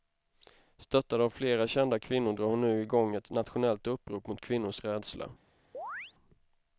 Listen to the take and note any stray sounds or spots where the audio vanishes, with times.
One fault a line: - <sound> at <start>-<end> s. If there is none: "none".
- chirp at 5.7-6.1 s